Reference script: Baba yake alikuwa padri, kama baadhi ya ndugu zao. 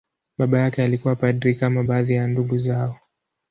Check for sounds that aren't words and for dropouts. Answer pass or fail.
pass